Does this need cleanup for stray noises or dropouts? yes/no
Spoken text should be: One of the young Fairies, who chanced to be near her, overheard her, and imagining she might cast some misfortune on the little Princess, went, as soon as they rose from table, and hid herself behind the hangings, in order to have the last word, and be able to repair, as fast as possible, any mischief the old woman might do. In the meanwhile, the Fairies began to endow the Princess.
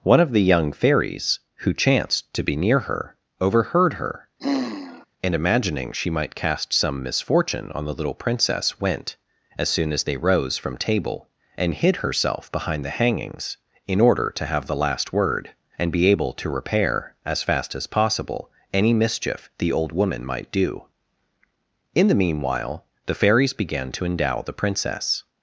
yes